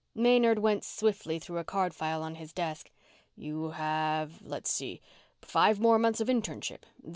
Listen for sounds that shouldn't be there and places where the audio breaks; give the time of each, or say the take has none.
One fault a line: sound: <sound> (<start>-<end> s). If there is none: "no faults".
no faults